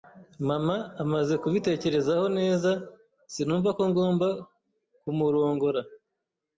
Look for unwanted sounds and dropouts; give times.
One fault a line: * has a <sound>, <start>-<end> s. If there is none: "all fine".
all fine